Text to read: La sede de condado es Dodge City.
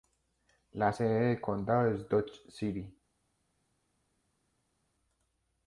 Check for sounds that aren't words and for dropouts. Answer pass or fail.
pass